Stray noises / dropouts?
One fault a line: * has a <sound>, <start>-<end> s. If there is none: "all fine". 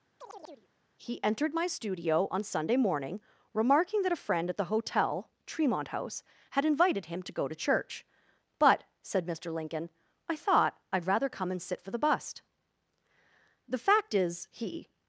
* has a chirp, 0.2-0.7 s